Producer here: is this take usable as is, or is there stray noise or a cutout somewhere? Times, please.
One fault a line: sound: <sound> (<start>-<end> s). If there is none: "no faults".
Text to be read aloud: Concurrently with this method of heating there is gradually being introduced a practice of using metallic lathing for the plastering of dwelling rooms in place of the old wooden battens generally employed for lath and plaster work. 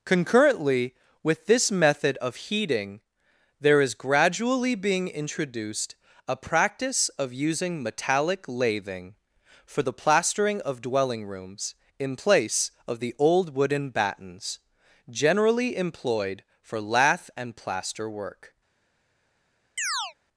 sound: chirp (19.8-20.1 s)